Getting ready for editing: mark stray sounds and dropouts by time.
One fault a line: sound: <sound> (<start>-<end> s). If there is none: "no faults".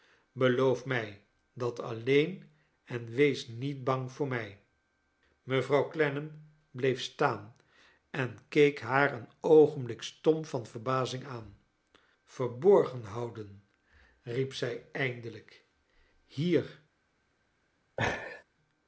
sound: laugh (18.0-18.4 s)